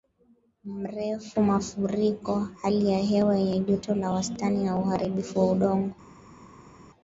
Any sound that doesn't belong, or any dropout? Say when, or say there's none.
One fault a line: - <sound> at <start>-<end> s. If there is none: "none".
none